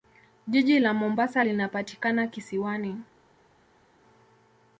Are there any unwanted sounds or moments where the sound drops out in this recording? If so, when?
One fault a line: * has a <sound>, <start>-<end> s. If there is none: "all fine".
all fine